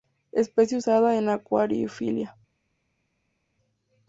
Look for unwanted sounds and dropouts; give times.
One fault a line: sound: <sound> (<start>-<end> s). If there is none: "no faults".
no faults